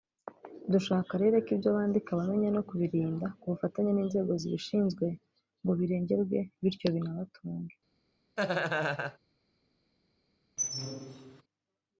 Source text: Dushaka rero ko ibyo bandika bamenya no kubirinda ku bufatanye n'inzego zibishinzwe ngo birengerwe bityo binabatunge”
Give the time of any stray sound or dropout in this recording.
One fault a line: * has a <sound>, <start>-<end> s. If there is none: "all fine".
* has a laugh, 8.4-9.2 s
* has a squeak, 10.6-11.4 s